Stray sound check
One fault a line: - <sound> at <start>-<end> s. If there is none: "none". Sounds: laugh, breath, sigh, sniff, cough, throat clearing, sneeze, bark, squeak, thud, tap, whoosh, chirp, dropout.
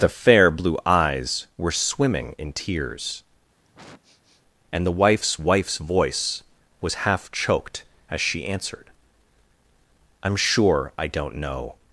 - sniff at 3.6-4.4 s